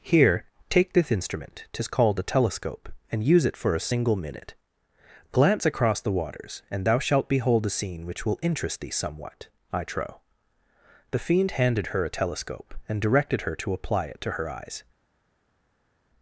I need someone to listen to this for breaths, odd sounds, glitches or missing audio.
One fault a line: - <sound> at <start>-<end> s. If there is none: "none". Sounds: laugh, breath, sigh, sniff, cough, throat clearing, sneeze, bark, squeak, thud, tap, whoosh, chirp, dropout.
none